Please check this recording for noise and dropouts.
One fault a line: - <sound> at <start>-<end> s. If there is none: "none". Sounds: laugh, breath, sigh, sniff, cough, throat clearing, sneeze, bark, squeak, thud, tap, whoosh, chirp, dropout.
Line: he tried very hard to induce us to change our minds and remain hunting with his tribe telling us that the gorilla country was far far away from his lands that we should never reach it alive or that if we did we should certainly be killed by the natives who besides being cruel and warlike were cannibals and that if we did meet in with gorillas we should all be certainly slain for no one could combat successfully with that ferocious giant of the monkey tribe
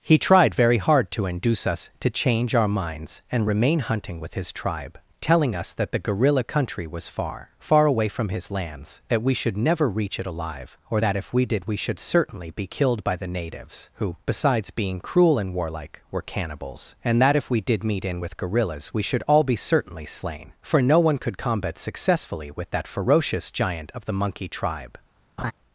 - laugh at 25.4-25.5 s